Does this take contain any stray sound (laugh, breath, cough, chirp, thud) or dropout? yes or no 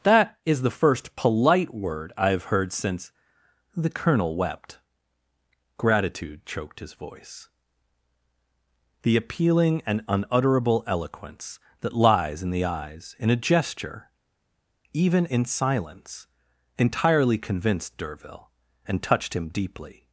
no